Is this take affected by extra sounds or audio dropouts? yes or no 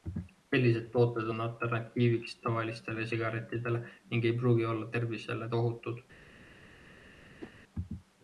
yes